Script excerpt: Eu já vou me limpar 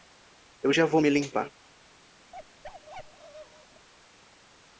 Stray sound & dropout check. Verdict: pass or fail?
fail